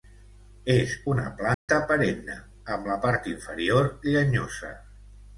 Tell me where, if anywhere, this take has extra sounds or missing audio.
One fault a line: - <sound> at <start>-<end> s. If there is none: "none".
- dropout at 1.5-1.7 s